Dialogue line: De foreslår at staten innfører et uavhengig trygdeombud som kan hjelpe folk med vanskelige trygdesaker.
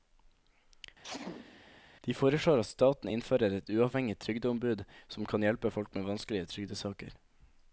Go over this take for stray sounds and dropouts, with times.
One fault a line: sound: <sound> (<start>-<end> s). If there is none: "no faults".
sound: sneeze (1.0-1.8 s)